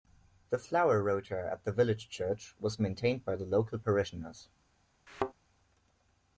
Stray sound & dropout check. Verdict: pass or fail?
fail